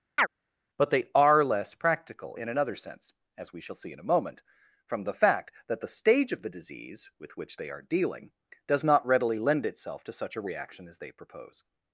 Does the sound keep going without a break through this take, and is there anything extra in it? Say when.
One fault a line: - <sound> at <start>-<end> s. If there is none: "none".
- chirp at 0.2-0.3 s